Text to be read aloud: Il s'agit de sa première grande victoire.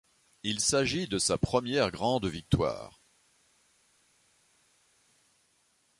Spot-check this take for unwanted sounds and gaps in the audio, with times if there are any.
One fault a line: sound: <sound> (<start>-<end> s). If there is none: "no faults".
no faults